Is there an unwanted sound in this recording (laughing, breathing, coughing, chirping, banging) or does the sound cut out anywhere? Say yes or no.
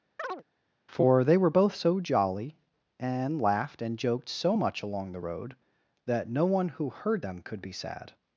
yes